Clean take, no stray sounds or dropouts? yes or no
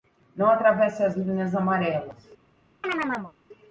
no